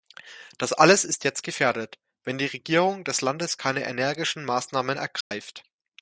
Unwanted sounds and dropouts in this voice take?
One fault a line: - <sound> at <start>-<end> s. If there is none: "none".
- dropout at 5.2-5.3 s